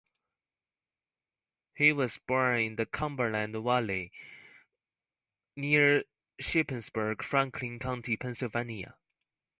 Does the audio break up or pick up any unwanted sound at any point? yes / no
no